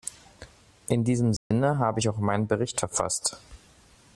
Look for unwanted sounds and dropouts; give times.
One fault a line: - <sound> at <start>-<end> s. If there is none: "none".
- dropout at 1.4-1.5 s